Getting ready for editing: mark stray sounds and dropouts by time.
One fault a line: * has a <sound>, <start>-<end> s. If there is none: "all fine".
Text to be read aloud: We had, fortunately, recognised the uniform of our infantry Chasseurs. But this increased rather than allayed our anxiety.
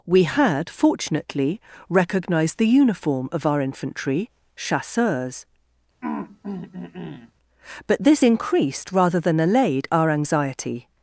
* has a throat clearing, 6.0-7.3 s